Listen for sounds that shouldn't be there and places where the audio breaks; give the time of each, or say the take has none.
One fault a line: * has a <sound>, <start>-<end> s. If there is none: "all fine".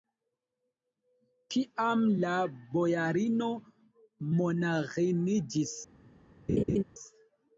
* has a laugh, 6.5-6.8 s